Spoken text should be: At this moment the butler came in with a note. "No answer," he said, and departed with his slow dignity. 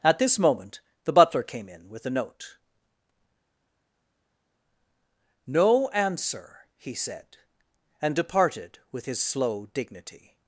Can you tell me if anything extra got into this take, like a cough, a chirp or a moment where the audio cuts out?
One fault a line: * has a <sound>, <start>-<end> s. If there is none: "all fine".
all fine